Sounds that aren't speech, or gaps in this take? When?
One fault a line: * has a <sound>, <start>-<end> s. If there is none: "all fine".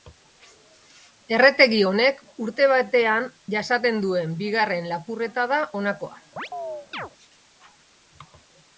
* has a chirp, 6.4-7.1 s